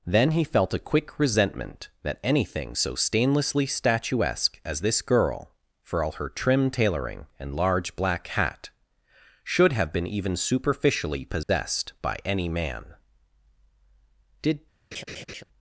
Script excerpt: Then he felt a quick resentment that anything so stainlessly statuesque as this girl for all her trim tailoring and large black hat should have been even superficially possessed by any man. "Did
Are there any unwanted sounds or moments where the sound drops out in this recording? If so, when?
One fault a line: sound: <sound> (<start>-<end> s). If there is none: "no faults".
sound: dropout (11.4-11.5 s)
sound: laugh (14.9-15.4 s)